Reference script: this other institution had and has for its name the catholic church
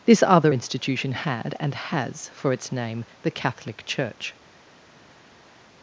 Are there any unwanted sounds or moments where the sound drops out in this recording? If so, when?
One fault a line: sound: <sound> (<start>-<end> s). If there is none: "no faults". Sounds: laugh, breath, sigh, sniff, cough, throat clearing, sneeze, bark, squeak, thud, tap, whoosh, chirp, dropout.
no faults